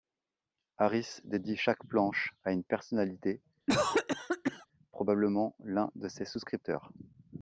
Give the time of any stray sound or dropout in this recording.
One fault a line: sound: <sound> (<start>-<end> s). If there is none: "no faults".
sound: cough (3.7-4.7 s)